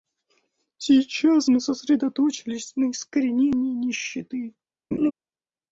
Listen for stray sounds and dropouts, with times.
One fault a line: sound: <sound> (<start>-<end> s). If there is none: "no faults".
sound: laugh (4.9-5.1 s)